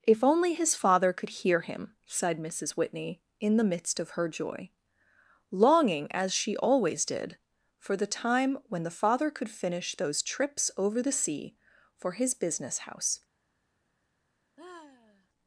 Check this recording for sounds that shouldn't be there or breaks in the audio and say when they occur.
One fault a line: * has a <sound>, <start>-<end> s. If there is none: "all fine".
* has a sigh, 14.6-15.3 s